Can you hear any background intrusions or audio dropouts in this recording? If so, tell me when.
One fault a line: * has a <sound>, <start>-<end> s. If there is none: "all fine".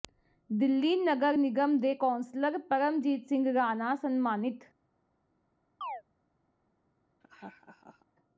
* has a chirp, 5.8-6.0 s
* has a laugh, 7.2-8.1 s